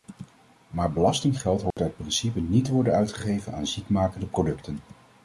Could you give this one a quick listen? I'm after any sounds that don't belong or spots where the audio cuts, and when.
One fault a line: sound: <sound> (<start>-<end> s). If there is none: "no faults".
sound: dropout (1.7-1.8 s)